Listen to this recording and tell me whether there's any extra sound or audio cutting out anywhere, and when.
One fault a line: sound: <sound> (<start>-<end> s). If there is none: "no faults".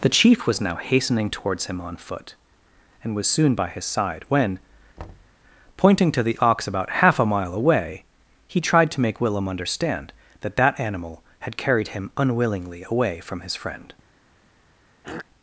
sound: thud (5.0-5.4 s)
sound: throat clearing (15.0-15.3 s)